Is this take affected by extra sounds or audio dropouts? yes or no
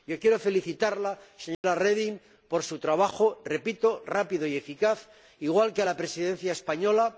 yes